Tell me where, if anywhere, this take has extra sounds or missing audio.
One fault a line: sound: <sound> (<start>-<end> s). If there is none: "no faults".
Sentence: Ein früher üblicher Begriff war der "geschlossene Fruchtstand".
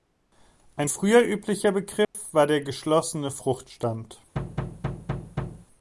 sound: dropout (2.0-2.1 s)
sound: thud (4.3-5.7 s)